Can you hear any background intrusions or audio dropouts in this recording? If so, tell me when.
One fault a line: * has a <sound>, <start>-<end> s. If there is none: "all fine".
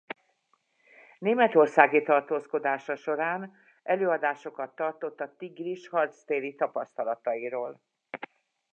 all fine